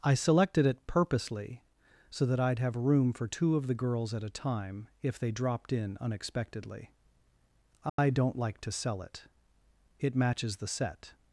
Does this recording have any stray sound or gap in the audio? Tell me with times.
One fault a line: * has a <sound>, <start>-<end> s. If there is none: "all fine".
* has a dropout, 7.9-8.0 s